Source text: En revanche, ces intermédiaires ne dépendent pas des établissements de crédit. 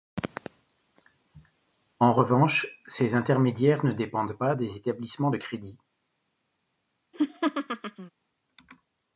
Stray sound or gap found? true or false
true